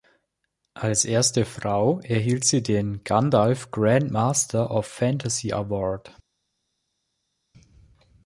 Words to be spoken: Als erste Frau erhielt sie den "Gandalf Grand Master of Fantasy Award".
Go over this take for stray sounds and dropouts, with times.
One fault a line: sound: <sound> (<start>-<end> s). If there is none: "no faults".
no faults